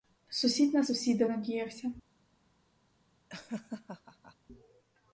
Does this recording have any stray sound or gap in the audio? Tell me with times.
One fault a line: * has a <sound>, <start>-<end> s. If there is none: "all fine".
* has a laugh, 3.3-4.4 s